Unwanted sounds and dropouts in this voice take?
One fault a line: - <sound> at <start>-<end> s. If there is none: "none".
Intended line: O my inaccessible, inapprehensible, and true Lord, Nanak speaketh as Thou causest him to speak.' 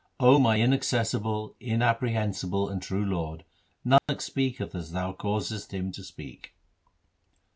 - dropout at 4.0-4.1 s